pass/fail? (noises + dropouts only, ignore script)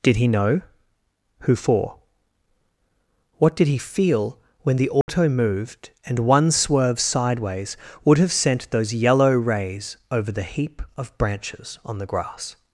fail